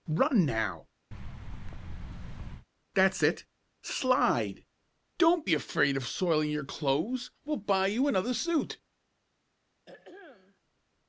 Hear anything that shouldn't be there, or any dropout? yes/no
yes